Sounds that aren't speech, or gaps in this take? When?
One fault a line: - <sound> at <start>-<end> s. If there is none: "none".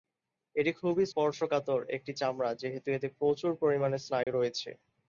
- dropout at 4.2-4.3 s